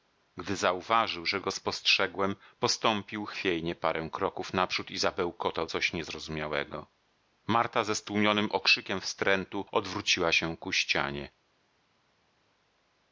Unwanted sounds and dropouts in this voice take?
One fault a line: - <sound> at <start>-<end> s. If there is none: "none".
none